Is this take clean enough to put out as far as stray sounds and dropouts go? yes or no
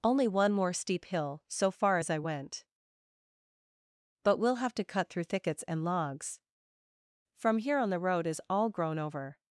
yes